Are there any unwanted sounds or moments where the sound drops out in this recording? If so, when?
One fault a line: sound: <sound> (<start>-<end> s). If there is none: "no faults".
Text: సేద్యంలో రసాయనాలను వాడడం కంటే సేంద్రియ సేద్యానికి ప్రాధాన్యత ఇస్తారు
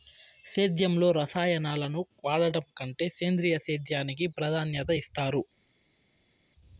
no faults